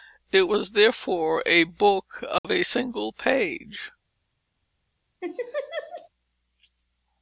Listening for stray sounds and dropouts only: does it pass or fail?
fail